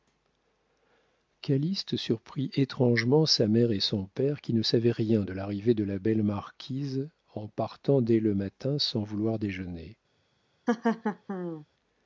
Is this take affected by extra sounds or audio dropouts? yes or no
yes